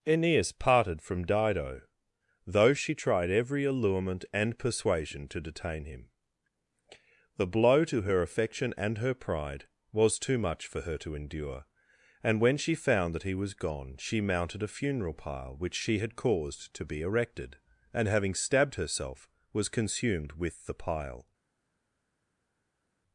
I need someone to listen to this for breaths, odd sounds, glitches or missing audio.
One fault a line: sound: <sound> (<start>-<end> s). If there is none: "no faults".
no faults